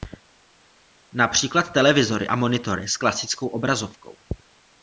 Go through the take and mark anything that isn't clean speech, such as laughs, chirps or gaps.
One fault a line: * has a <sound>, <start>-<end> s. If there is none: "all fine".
all fine